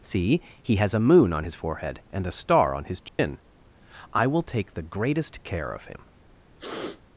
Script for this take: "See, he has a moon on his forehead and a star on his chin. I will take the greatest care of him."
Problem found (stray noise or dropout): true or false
true